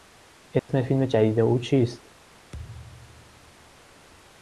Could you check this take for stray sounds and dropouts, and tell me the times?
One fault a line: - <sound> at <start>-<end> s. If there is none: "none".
- dropout at 0.6-0.7 s
- thud at 2.5-3.8 s